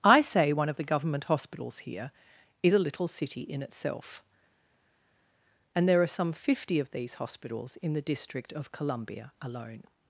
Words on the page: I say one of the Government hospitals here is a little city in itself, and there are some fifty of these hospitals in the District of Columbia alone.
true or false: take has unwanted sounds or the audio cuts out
false